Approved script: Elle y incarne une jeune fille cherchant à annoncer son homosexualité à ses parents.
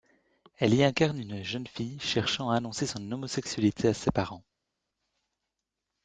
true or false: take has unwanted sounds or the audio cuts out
false